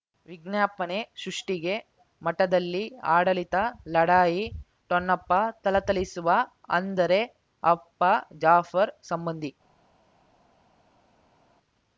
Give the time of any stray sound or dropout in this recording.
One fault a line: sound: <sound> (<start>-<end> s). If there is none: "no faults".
no faults